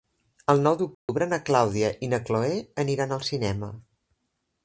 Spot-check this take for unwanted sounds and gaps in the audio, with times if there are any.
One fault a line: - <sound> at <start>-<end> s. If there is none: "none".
- dropout at 0.9-1.1 s